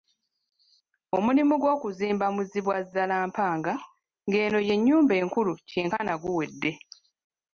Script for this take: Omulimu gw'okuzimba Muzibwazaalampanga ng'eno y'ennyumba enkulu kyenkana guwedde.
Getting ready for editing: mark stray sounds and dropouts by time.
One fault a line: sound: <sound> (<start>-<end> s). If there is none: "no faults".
no faults